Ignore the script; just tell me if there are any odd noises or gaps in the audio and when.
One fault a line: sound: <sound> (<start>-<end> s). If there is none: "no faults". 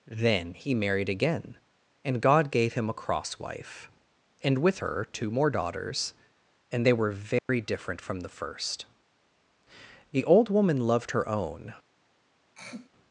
sound: dropout (7.4-7.5 s)
sound: throat clearing (12.6-12.9 s)